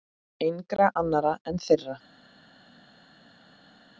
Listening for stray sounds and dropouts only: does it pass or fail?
pass